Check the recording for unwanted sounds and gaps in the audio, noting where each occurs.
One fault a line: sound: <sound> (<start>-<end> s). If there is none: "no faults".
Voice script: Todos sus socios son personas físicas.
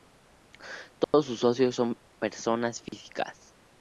sound: dropout (1.0-1.1 s)
sound: dropout (2.9-2.9 s)